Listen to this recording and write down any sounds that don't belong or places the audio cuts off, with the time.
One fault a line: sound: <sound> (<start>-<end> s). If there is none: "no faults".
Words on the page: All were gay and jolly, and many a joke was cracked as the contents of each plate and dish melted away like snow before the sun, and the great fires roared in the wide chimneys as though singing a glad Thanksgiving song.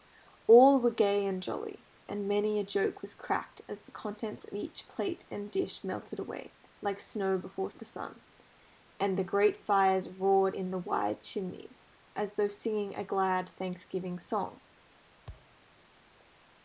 sound: thud (15.3-15.6 s)